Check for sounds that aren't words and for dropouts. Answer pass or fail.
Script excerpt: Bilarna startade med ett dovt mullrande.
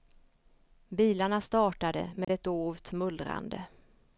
fail